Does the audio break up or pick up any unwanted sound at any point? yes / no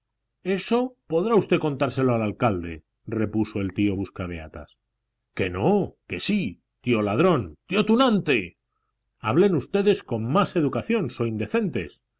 no